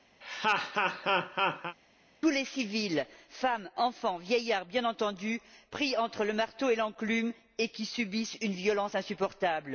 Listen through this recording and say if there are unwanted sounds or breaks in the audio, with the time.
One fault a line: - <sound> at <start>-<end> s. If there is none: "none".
- laugh at 0.2-1.8 s